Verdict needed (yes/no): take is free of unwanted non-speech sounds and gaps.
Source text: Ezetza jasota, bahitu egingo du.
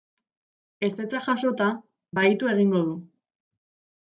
yes